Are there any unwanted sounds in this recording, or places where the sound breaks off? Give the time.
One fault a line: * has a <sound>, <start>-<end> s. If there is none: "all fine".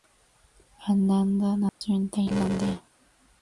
* has a dropout, 1.7-1.8 s